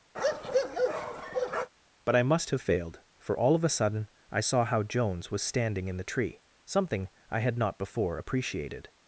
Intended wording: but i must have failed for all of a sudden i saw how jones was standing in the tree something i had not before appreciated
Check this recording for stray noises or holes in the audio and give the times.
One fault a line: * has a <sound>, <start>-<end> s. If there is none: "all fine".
* has a bark, 0.1-1.7 s